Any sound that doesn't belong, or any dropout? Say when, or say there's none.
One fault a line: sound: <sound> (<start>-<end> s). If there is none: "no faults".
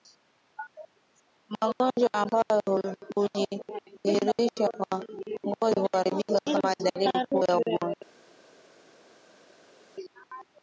no faults